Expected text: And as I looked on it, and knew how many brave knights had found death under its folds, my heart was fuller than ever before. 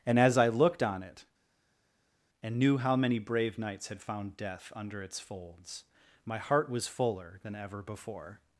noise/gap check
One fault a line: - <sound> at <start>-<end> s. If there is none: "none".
none